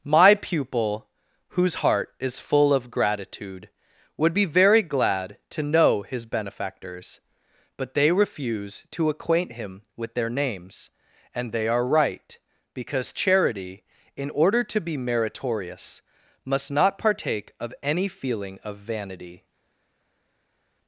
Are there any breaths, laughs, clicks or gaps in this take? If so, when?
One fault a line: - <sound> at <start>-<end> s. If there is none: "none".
none